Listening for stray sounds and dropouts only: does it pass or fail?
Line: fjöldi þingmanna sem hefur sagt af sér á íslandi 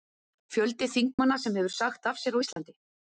fail